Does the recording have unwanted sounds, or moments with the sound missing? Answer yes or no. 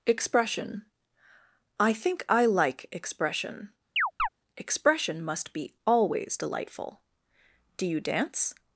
yes